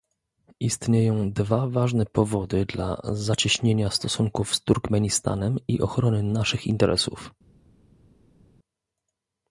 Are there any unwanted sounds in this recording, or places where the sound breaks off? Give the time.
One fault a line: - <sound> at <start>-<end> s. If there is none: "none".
none